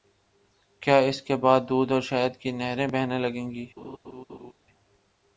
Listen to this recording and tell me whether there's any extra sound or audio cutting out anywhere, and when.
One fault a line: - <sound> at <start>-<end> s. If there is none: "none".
- laugh at 3.8-4.5 s